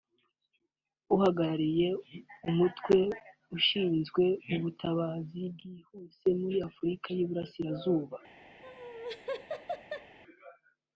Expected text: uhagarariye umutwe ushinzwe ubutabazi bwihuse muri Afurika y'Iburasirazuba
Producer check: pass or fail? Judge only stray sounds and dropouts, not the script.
fail